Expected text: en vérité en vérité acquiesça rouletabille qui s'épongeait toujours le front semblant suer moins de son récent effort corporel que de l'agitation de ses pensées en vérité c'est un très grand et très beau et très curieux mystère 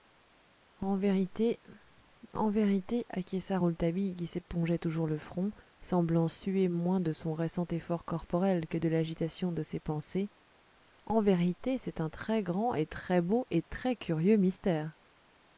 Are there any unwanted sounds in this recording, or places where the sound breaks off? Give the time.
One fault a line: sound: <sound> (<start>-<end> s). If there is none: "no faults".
no faults